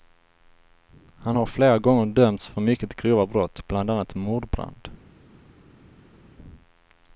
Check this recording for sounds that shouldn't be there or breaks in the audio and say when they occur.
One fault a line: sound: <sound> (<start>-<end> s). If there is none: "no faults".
no faults